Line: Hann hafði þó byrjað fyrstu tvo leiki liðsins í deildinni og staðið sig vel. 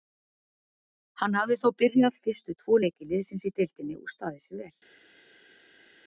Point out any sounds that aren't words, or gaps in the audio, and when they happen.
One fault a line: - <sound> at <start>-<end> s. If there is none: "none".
none